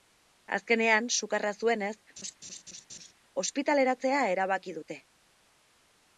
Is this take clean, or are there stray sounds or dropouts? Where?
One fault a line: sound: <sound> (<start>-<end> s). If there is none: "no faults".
sound: laugh (2.2-3.1 s)